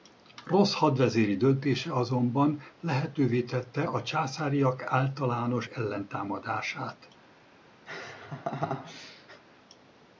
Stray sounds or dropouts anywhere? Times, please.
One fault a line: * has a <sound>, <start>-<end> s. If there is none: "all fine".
* has a laugh, 7.9-9.4 s